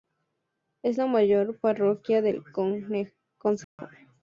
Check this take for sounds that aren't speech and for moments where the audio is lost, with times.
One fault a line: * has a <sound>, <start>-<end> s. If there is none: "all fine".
* has a dropout, 3.6-3.8 s